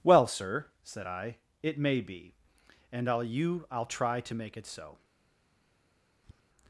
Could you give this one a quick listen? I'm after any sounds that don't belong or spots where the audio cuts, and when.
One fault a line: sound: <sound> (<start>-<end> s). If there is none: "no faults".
sound: tap (6.2-6.4 s)